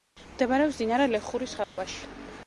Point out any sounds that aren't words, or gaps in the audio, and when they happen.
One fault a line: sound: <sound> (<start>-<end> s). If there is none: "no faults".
sound: dropout (1.6-1.8 s)